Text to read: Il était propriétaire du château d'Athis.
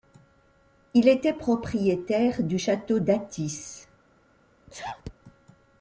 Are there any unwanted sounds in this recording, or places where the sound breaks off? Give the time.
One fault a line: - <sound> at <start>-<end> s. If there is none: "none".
- sneeze at 4.7-5.1 s